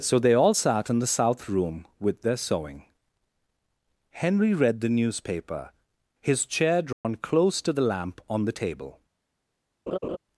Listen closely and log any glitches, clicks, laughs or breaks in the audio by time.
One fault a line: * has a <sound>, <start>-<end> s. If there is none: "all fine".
* has a dropout, 6.9-7.0 s
* has a laugh, 9.9-10.2 s